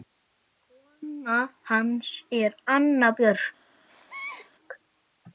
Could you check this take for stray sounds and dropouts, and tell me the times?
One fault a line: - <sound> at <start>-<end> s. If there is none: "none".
- sneeze at 3.9-4.5 s